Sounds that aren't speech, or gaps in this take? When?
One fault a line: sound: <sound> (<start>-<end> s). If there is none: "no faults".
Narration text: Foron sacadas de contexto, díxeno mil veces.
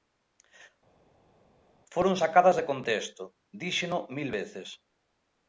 no faults